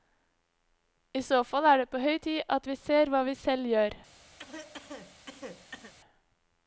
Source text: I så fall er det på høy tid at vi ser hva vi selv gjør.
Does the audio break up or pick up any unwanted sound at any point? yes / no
yes